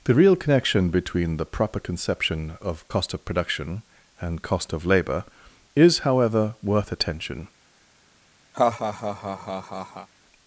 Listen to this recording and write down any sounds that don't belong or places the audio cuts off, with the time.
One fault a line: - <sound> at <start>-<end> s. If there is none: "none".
- laugh at 8.5-10.1 s